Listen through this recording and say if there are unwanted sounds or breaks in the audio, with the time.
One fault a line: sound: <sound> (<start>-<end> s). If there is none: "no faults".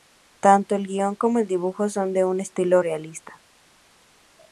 no faults